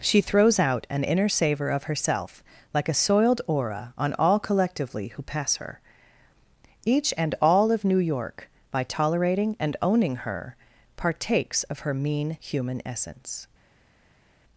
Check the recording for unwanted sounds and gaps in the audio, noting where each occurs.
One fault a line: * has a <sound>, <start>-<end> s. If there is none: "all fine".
all fine